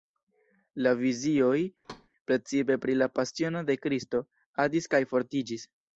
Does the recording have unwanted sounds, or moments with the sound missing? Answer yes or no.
yes